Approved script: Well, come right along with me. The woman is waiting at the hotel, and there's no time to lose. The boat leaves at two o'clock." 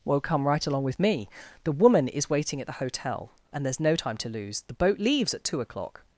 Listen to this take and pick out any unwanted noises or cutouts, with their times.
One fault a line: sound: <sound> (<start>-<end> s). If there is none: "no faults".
no faults